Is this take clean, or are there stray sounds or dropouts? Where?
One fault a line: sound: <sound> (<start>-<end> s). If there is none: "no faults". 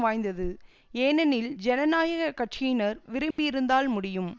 sound: dropout (3.3-3.4 s)